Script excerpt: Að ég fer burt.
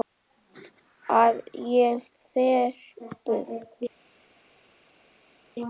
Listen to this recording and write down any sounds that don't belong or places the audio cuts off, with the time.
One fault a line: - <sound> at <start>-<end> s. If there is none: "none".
none